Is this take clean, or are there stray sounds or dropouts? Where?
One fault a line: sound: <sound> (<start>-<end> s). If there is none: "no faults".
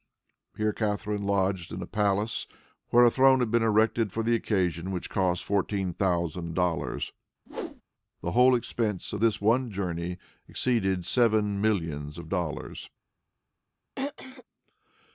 sound: whoosh (7.5-7.8 s)
sound: throat clearing (14.0-14.4 s)